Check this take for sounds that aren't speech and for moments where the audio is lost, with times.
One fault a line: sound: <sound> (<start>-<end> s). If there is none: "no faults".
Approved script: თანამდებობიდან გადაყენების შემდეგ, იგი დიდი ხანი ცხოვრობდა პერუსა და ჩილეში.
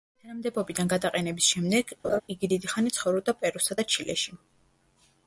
sound: laugh (2.0-2.2 s)